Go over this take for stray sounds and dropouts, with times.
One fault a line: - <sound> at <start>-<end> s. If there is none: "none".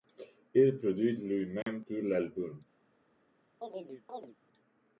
- dropout at 1.6-1.7 s
- chirp at 3.6-4.4 s